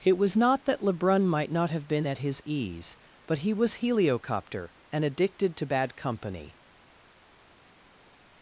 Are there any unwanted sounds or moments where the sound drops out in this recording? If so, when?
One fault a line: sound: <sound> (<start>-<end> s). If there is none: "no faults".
no faults